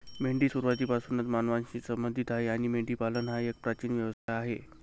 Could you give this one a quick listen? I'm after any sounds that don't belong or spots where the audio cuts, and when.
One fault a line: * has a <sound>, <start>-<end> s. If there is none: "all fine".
* has a dropout, 4.1-4.3 s